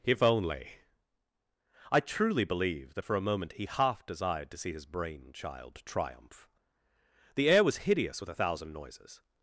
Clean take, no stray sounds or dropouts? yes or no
yes